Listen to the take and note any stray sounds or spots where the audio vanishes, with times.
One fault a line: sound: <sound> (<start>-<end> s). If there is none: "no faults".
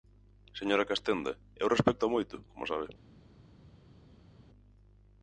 no faults